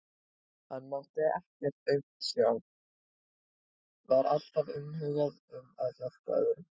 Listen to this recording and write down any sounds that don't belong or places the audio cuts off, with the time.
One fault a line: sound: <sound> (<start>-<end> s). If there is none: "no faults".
no faults